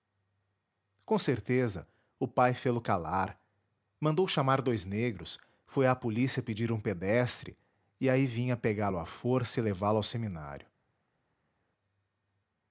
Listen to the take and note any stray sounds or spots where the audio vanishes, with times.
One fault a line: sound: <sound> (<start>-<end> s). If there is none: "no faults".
no faults